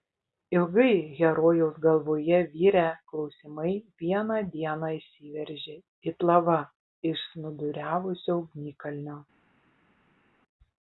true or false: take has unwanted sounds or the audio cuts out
false